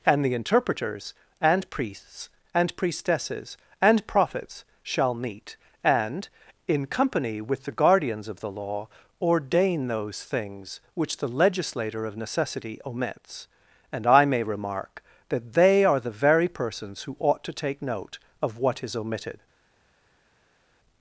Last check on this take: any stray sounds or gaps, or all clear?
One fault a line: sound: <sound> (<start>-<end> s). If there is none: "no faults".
no faults